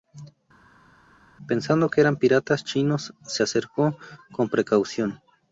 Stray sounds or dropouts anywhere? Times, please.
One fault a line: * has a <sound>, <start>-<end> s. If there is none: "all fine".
all fine